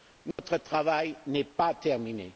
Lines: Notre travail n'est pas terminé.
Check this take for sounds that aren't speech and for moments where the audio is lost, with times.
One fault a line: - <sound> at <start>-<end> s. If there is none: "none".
- dropout at 0.3-0.4 s